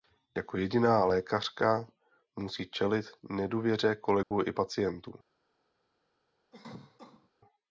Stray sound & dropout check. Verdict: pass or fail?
fail